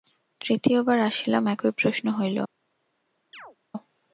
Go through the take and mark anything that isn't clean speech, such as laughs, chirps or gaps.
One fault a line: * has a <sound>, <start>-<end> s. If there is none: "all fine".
* has a chirp, 3.3-3.6 s